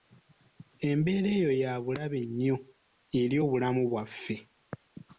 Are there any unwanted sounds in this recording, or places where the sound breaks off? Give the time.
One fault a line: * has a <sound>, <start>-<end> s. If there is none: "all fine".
all fine